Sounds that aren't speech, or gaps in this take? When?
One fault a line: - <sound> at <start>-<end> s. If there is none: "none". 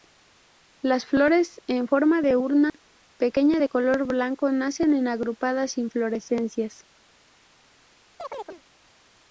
- dropout at 2.7-2.7 s
- chirp at 8.2-8.6 s